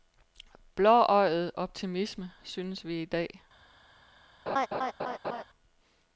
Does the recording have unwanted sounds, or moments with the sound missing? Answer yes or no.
yes